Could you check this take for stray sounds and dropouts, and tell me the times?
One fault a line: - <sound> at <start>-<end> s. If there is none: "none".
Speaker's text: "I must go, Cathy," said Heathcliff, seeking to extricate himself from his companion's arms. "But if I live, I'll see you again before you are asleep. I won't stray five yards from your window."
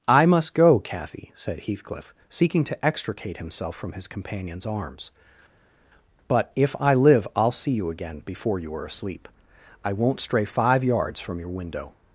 none